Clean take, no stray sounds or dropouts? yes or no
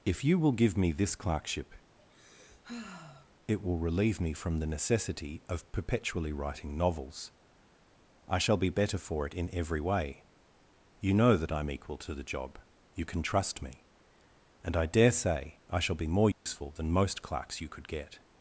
no